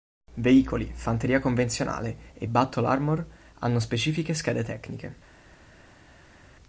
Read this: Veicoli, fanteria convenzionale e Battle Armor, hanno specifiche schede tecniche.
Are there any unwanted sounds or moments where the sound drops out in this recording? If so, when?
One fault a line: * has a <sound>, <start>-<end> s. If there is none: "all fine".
all fine